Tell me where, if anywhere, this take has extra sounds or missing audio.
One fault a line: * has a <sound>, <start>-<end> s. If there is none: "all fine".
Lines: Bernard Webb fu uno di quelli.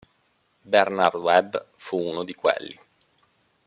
all fine